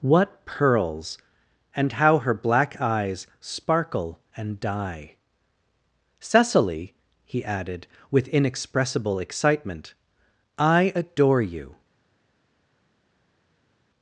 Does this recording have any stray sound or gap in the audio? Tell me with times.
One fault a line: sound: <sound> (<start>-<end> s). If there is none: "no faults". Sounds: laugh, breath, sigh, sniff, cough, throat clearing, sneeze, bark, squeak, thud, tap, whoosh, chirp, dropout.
no faults